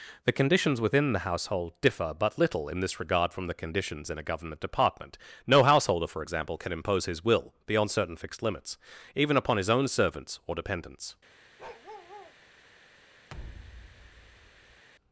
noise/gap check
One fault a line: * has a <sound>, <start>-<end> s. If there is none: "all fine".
* has a bark, 11.6-12.4 s
* has a thud, 13.3-14.8 s